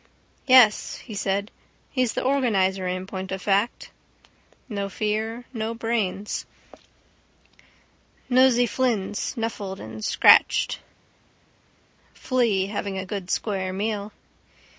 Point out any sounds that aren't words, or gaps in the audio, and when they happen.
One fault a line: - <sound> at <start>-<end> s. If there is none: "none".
none